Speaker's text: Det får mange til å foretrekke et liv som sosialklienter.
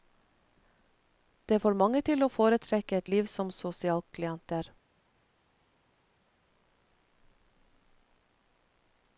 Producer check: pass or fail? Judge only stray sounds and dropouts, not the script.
pass